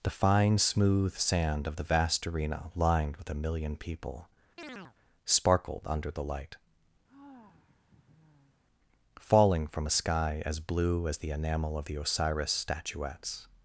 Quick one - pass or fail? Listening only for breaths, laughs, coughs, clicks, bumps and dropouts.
fail